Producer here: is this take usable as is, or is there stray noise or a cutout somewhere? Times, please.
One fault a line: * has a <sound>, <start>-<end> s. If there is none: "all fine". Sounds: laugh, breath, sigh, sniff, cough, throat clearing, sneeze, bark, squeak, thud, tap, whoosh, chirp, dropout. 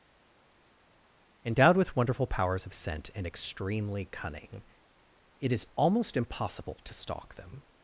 all fine